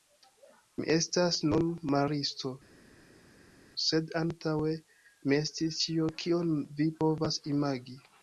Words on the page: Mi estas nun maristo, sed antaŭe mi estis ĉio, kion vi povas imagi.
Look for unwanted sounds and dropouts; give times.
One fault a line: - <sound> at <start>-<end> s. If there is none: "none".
none